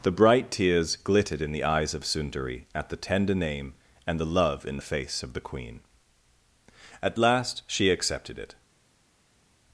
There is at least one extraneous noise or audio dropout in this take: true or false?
false